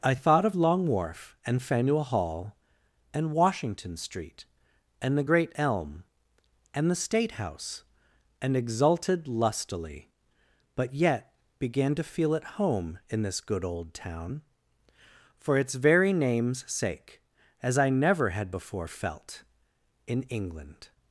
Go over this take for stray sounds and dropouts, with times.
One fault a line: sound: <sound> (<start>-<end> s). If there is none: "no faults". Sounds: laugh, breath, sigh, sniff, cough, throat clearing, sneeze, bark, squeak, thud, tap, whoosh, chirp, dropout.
no faults